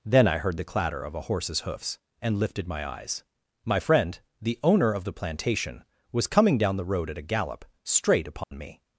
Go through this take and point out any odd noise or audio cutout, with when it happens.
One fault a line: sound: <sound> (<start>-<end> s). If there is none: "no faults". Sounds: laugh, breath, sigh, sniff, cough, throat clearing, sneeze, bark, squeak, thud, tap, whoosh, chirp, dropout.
sound: dropout (8.4-8.5 s)